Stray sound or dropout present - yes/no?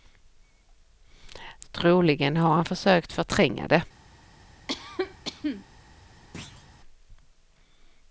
yes